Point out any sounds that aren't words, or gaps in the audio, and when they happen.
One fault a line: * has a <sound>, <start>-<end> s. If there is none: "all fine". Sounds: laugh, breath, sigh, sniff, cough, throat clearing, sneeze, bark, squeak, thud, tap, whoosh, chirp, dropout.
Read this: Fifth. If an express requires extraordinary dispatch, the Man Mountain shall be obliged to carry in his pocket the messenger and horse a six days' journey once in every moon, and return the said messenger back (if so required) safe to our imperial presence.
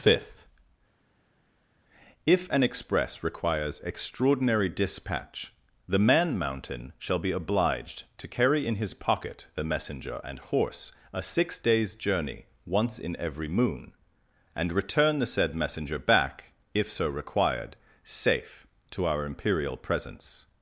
all fine